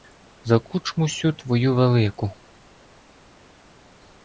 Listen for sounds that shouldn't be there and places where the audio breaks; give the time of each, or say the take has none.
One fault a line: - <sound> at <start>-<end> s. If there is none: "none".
none